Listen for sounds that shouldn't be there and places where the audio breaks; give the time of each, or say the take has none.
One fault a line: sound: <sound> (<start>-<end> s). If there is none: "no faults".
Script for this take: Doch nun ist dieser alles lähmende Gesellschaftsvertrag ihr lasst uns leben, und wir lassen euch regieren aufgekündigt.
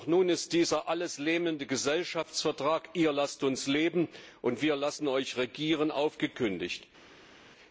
no faults